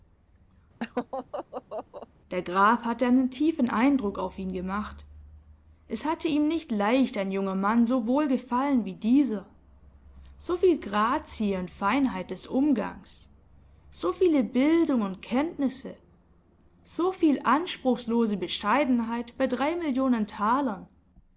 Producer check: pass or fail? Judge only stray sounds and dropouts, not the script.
fail